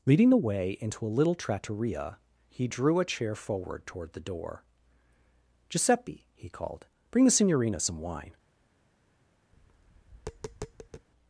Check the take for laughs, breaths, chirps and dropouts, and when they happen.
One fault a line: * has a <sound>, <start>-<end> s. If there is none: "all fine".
* has a tap, 9.5-11.1 s